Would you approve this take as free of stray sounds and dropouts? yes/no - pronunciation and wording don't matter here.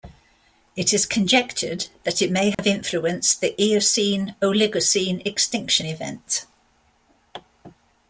no